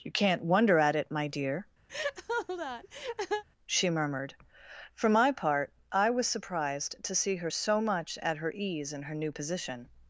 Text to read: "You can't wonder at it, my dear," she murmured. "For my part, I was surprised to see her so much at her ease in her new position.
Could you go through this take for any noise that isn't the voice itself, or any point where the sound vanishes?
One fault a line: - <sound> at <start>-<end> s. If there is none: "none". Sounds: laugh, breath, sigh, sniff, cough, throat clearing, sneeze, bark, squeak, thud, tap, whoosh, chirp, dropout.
- laugh at 1.9-3.4 s